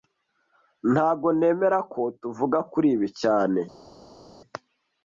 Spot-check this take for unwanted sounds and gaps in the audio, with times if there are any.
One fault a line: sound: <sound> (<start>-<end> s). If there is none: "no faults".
no faults